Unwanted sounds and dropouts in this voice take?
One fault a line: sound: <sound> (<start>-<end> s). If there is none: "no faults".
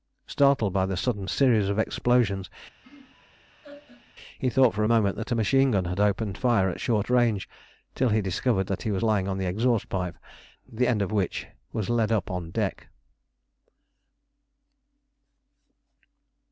sound: laugh (2.8-4.1 s)